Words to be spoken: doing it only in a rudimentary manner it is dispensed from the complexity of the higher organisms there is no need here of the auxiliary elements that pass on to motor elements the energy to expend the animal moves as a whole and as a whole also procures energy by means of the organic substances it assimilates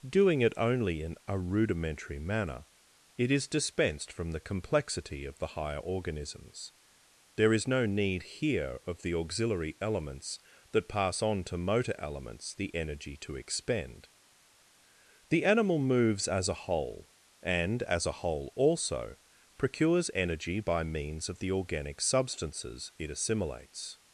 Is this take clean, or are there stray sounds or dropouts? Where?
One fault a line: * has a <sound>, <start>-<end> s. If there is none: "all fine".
all fine